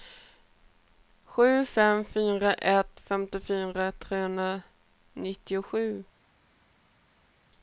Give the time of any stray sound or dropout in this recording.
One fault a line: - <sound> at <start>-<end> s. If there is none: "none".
none